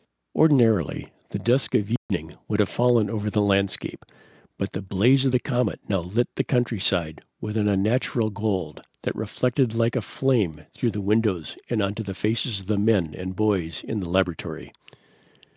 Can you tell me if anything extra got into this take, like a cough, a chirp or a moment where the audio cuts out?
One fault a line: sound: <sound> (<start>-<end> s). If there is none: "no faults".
sound: dropout (2.0-2.1 s)